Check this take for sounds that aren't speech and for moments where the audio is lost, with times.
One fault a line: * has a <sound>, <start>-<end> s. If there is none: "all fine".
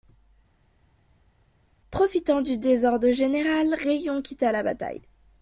all fine